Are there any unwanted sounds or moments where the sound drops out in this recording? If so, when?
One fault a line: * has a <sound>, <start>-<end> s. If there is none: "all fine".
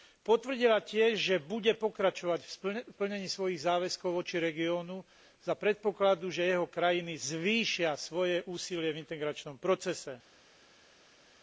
all fine